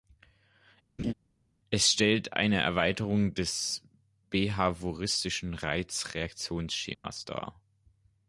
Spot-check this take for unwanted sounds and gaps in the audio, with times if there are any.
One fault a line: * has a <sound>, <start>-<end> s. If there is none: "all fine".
* has a laugh, 1.0-1.1 s
* has a dropout, 6.9-7.0 s